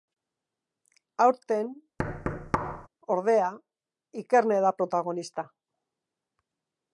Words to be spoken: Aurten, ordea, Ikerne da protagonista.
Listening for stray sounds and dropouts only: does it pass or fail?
fail